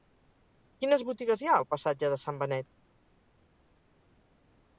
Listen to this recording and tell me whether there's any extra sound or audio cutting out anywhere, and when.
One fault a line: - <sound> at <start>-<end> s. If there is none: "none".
none